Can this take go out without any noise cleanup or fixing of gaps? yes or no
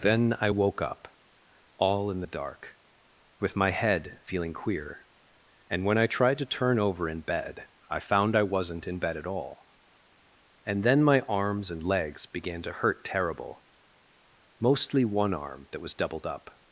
yes